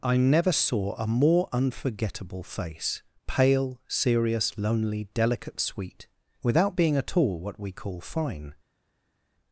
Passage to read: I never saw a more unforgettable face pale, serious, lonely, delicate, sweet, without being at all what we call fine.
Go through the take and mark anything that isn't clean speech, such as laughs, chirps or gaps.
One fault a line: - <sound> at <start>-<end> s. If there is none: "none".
none